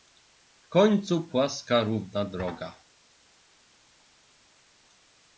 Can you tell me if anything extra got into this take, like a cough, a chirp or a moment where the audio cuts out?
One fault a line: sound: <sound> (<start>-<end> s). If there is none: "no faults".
no faults